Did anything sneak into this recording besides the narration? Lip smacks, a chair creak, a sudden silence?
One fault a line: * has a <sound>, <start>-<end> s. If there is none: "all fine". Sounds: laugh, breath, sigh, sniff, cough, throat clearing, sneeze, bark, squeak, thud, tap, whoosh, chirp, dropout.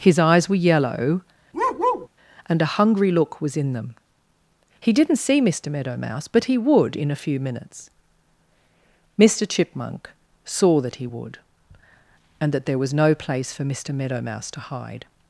* has a bark, 1.5-2.1 s